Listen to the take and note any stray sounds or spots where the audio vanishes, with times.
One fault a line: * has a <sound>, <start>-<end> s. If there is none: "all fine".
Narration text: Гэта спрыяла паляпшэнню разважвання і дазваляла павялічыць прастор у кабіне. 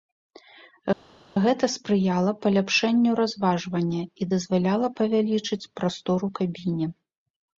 all fine